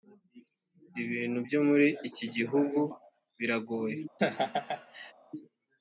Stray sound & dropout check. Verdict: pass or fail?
fail